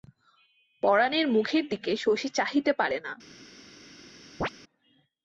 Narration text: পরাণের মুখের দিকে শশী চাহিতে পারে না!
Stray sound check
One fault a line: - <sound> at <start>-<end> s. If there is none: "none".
- chirp at 4.4-4.5 s